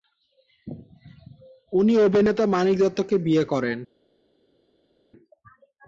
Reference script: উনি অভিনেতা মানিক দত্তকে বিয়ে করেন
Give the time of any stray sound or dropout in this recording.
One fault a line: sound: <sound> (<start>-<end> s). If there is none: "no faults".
no faults